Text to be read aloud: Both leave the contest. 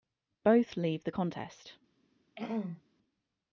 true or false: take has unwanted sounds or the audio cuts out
true